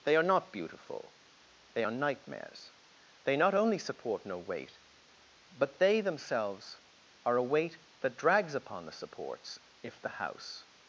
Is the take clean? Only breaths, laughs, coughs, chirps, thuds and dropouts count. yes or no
yes